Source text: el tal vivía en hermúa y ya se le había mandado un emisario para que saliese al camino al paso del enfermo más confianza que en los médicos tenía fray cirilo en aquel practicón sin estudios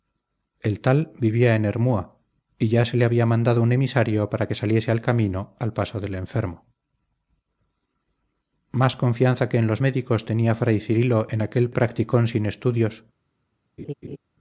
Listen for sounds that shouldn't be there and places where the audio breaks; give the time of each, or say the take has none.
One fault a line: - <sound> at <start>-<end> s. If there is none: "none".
- laugh at 13.8-14.2 s